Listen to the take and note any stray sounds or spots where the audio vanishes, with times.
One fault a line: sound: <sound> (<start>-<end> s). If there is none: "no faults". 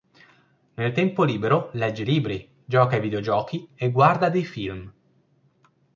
no faults